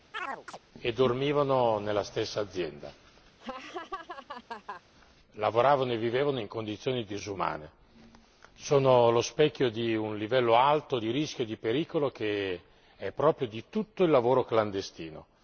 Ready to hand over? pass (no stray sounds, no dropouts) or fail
fail